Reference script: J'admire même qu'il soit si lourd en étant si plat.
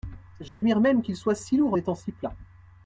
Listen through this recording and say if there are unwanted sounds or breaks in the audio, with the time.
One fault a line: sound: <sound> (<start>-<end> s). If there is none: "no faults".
sound: dropout (0.5-0.6 s)